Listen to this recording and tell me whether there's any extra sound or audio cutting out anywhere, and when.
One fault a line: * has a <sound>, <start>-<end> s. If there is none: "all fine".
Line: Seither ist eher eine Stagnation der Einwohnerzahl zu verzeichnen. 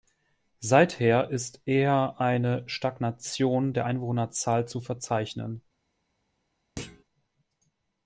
* has a thud, 6.8-7.0 s